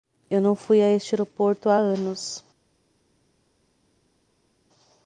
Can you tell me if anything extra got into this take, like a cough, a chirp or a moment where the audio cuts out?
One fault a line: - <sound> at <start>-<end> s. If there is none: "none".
none